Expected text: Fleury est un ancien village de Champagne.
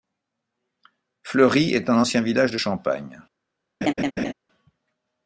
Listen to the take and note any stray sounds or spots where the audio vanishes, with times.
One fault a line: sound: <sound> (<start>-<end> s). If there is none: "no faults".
sound: laugh (3.8-4.3 s)